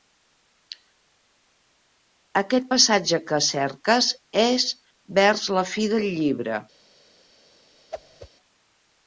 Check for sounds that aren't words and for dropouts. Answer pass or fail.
fail